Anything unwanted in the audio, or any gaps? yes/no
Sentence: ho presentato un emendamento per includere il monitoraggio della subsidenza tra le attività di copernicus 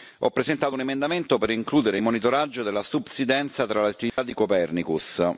yes